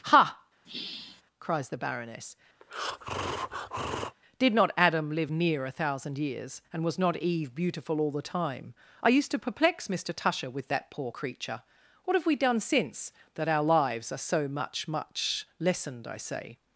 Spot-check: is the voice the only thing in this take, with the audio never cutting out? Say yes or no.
no